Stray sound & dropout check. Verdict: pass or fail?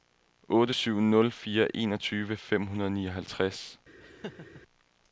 fail